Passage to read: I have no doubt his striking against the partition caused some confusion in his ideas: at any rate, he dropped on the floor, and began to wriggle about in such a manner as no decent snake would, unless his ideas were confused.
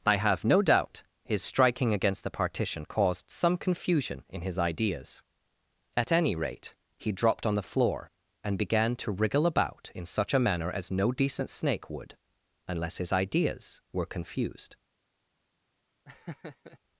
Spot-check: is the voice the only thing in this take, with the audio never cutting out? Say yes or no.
no